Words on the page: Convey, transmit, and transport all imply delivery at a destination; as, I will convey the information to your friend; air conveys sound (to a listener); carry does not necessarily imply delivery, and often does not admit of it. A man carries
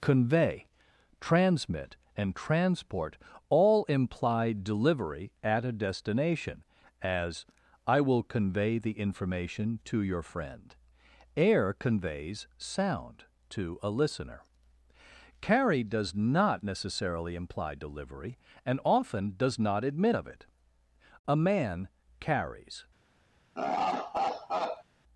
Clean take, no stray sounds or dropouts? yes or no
no